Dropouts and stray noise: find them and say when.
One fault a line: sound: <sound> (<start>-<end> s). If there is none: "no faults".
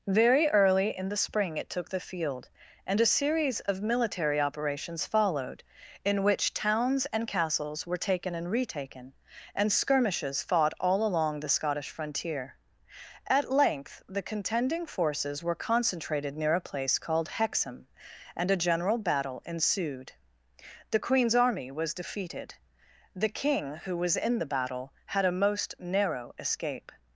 no faults